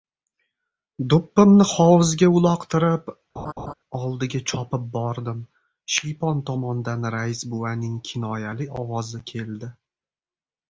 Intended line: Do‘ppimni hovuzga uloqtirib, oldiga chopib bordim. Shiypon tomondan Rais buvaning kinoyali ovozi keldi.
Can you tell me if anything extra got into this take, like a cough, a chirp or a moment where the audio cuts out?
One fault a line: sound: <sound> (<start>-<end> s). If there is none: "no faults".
sound: laugh (3.4-3.7 s)